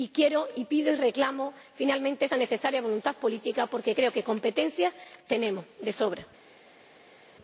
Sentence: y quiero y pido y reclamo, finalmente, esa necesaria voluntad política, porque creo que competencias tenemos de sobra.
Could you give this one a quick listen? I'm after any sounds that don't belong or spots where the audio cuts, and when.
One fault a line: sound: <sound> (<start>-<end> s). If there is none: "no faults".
no faults